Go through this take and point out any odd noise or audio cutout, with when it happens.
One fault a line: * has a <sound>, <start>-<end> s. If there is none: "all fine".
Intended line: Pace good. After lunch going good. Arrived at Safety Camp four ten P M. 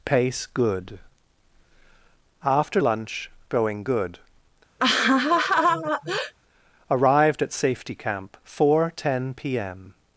* has a laugh, 4.8-6.3 s